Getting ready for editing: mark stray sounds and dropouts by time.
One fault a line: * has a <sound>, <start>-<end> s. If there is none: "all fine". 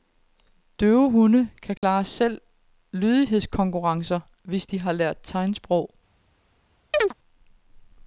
* has a dropout, 1.8-1.8 s
* has a chirp, 6.9-7.1 s